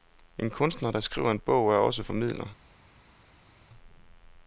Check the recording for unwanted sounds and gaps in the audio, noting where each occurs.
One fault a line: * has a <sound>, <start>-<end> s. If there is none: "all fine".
all fine